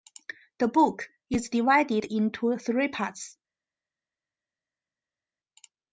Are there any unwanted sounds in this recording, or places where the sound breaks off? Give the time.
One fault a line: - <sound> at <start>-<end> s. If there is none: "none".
none